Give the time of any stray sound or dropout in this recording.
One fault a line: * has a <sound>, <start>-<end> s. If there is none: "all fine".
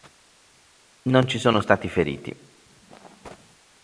all fine